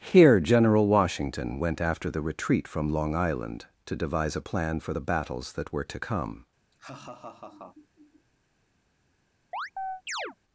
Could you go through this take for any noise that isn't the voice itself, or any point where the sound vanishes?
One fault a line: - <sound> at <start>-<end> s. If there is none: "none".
- laugh at 6.7-8.3 s
- chirp at 9.5-10.4 s